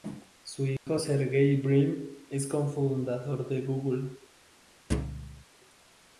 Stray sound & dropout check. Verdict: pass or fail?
fail